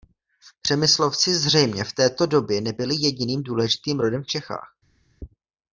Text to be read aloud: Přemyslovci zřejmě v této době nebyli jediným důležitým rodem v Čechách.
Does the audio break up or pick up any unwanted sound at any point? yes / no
no